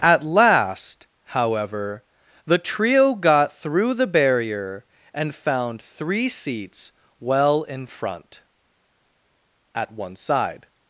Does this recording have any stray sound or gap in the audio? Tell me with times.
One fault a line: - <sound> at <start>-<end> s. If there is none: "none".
none